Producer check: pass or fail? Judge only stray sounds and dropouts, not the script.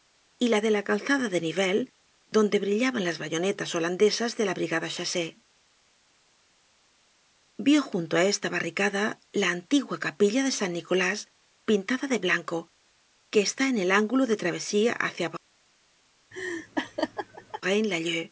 fail